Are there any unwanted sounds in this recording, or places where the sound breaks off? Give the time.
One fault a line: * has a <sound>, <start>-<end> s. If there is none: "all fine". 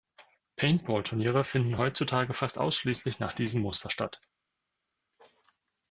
all fine